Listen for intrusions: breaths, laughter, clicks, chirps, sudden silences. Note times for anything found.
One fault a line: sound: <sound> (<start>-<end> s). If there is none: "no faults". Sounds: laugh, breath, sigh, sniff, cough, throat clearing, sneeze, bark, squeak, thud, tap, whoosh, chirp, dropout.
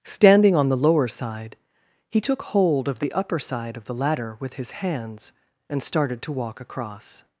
no faults